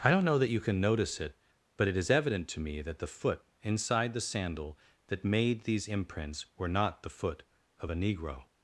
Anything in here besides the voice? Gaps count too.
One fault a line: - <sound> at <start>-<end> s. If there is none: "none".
none